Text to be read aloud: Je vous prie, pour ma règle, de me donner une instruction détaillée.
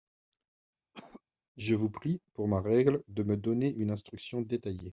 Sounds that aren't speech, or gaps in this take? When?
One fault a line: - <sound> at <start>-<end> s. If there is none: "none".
- cough at 0.9-1.2 s